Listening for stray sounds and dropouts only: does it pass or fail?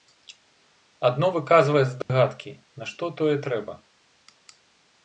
fail